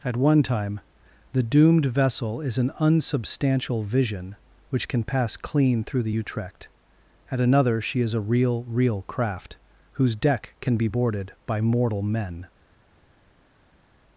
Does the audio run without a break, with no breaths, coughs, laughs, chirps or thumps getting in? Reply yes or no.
yes